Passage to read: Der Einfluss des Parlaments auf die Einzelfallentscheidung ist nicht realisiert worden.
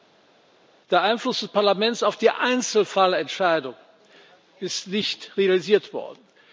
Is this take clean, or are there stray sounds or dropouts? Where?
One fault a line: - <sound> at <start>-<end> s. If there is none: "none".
none